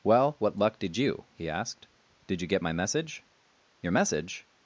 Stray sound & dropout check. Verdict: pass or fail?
pass